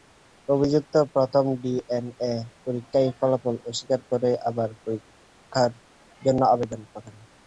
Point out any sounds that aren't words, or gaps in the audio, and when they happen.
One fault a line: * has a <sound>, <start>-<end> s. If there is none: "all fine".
all fine